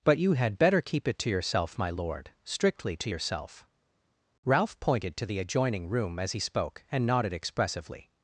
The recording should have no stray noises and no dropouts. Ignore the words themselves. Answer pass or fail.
pass